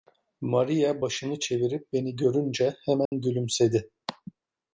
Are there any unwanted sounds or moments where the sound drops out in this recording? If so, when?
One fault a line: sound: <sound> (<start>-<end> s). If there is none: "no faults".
sound: dropout (3.1-3.1 s)